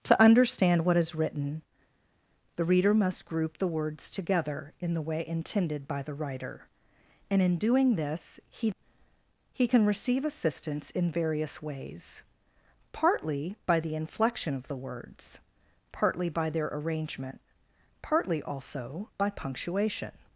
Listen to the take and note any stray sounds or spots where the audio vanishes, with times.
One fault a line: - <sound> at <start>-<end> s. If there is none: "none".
none